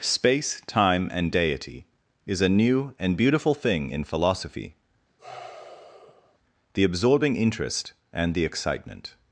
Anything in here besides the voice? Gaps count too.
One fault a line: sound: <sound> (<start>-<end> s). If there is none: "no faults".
sound: sigh (5.2-6.4 s)